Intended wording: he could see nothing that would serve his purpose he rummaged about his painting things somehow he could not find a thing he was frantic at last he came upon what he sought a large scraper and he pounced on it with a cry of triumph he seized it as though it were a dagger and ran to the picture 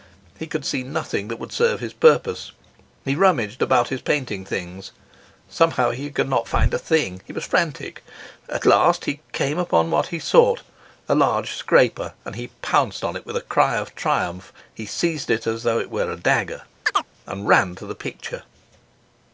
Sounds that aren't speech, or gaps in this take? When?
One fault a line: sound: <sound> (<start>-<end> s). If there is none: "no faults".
sound: chirp (16.8-17.1 s)